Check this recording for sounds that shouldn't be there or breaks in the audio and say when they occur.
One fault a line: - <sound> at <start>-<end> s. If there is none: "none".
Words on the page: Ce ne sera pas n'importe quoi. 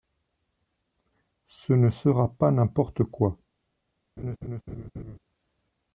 - laugh at 4.2-5.2 s